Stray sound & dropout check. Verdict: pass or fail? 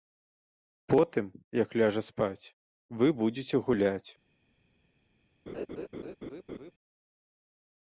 fail